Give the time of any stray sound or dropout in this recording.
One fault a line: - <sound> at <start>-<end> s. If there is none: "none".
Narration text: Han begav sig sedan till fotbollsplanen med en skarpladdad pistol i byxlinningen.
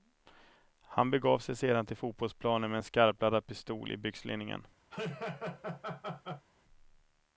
- laugh at 4.9-6.5 s